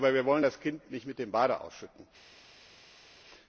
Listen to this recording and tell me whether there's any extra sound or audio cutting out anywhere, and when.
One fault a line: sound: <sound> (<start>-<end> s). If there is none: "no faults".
no faults